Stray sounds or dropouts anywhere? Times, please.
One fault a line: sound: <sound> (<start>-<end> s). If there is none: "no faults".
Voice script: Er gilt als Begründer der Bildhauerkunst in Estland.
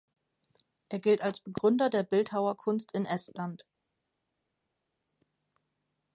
no faults